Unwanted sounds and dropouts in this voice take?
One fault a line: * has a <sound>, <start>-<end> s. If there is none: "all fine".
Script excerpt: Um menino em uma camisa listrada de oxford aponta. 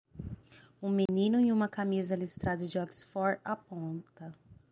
* has a dropout, 1.1-1.1 s